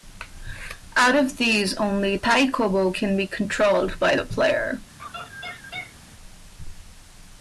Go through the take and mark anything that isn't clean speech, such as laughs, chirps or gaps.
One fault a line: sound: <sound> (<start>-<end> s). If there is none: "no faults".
sound: laugh (5.0-6.0 s)